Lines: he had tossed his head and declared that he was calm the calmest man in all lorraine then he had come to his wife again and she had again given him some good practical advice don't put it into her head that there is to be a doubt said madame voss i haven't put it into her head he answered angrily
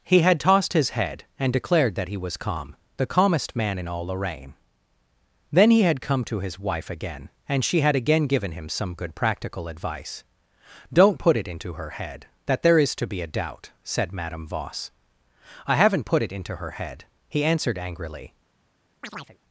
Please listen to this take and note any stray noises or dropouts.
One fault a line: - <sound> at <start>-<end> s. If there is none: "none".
- chirp at 19.0-19.4 s